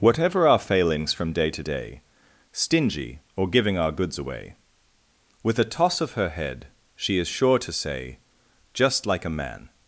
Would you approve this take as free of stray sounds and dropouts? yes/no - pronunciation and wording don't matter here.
yes